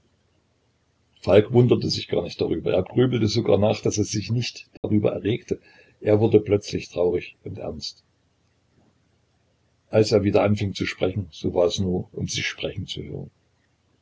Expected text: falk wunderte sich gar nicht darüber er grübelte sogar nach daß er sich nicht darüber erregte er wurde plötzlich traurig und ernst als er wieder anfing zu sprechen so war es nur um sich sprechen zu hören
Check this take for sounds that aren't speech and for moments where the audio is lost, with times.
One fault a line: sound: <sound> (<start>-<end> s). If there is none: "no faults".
sound: dropout (4.8-4.8 s)